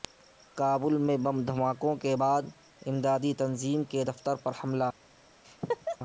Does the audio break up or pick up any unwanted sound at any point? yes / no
yes